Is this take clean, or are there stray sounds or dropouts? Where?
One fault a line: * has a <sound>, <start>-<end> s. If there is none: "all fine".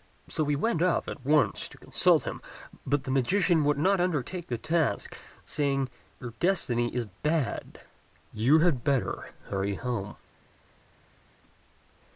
all fine